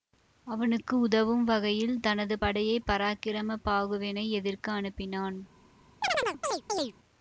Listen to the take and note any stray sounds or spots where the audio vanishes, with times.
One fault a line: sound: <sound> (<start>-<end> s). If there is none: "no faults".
sound: chirp (6.0-6.9 s)